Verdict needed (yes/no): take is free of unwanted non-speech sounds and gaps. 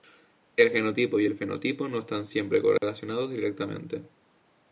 no